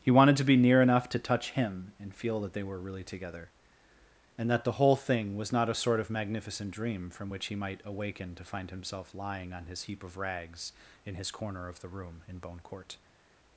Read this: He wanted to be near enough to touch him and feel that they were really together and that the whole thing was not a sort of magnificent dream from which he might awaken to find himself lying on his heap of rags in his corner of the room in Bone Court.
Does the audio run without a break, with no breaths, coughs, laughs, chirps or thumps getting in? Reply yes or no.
yes